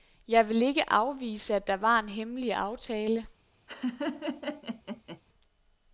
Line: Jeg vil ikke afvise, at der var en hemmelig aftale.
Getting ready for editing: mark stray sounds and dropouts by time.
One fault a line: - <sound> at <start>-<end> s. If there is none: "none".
- laugh at 3.7-5.2 s